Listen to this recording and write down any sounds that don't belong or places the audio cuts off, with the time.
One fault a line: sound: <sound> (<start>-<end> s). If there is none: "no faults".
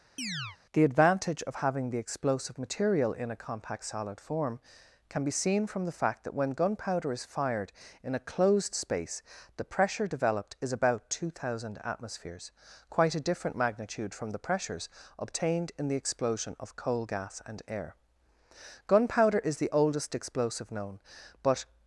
sound: chirp (0.2-0.6 s)